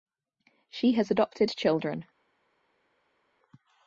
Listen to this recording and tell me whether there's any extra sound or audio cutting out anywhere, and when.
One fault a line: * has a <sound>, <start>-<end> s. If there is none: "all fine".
all fine